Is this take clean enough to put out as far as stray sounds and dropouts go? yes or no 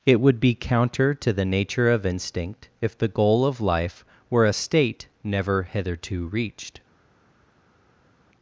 yes